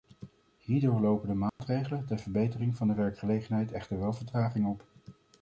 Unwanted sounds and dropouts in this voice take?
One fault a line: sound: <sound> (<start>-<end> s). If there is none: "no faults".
sound: dropout (1.5-1.6 s)